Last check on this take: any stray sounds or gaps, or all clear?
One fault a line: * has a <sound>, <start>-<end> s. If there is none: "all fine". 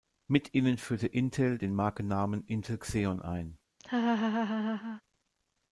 * has a laugh, 3.8-5.0 s